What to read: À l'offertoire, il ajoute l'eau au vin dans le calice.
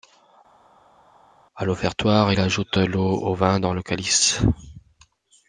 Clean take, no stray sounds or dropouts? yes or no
yes